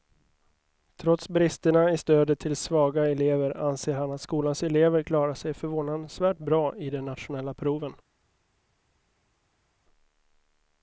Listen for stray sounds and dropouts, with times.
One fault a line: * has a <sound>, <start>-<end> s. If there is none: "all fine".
all fine